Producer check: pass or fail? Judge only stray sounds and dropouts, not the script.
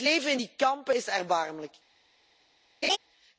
fail